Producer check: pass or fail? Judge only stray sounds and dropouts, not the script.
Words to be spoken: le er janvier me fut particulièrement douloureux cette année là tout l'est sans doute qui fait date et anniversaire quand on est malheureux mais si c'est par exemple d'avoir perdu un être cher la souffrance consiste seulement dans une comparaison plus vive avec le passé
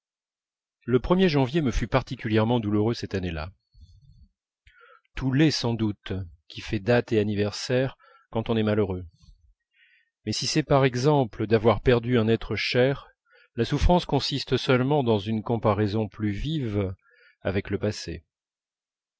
pass